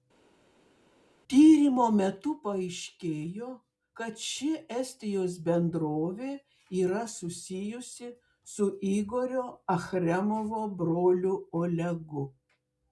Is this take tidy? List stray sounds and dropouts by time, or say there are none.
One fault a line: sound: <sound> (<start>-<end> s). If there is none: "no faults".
no faults